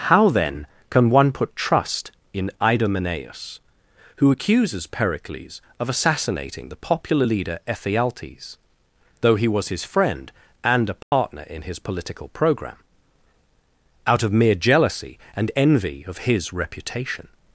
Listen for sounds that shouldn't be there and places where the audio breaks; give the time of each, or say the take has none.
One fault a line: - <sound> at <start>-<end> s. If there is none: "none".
- dropout at 11.0-11.1 s